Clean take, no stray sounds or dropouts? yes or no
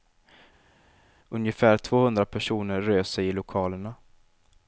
yes